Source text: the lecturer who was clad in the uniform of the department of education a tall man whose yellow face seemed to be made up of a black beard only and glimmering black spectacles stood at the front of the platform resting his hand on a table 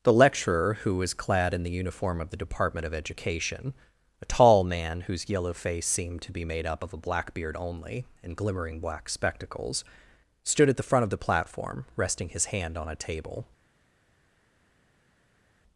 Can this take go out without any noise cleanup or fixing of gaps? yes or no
yes